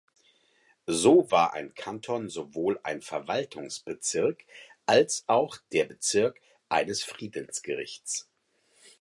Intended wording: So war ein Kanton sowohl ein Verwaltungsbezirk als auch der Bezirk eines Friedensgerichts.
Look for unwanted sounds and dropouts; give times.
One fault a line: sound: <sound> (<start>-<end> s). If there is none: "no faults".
no faults